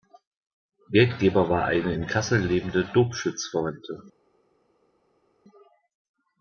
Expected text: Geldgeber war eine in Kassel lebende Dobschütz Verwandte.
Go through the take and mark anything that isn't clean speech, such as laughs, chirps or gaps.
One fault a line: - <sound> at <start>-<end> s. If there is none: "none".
none